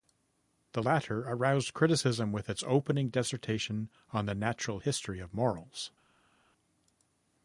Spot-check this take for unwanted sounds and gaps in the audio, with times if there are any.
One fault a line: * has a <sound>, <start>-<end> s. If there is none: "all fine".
all fine